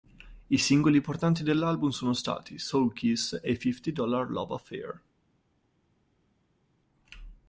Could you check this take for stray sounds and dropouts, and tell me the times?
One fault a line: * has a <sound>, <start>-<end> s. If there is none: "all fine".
all fine